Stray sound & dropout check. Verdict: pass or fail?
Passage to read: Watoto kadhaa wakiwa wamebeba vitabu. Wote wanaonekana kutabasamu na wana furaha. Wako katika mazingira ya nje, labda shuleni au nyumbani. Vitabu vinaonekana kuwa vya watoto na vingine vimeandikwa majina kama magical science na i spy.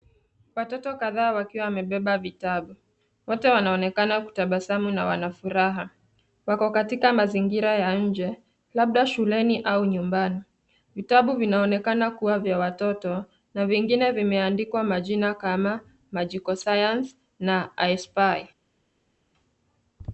pass